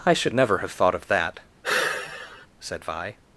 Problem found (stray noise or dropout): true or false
true